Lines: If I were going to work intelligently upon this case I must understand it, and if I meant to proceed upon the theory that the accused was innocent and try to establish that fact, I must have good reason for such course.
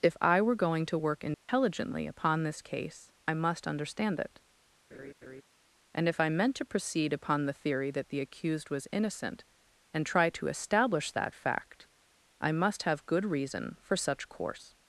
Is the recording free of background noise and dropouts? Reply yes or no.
no